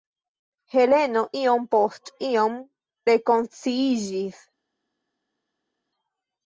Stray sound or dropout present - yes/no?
no